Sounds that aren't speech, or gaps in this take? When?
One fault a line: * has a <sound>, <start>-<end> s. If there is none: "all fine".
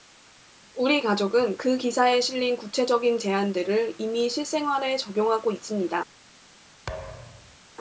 * has a thud, 6.9-7.6 s